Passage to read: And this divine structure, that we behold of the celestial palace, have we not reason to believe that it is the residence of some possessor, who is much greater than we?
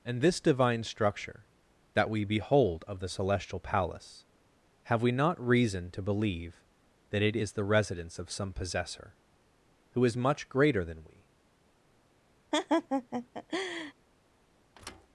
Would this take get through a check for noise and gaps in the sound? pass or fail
fail